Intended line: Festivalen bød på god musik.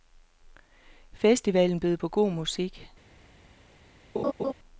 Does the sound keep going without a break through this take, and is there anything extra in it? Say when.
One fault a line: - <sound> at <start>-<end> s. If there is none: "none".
- laugh at 4.1-4.5 s